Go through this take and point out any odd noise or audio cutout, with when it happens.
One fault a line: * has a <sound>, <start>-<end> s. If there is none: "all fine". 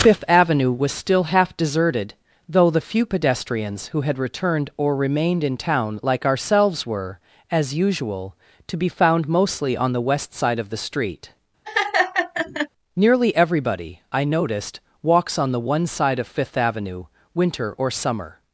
* has a laugh, 11.6-12.7 s